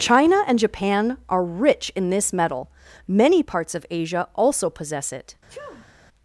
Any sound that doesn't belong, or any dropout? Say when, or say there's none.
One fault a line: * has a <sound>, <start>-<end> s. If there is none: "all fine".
* has a sneeze, 5.5-5.9 s